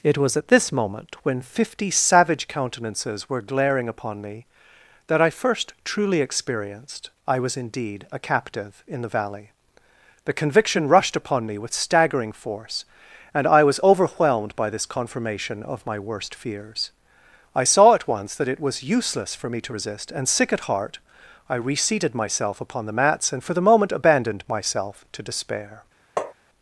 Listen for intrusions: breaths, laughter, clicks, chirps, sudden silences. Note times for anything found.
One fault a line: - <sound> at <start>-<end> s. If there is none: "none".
- tap at 26.2-26.3 s